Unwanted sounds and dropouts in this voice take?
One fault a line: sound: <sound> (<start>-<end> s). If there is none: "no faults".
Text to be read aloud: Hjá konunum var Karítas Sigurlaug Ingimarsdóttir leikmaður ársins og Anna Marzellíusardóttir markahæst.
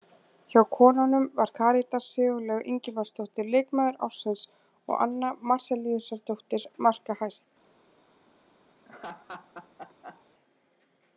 sound: laugh (8.8-10.2 s)